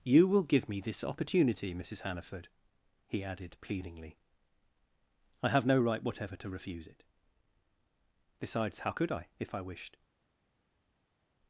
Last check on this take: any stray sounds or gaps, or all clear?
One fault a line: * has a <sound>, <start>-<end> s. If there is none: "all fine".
all fine